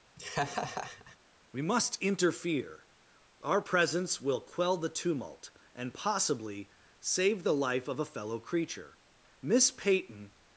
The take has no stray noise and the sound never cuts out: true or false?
false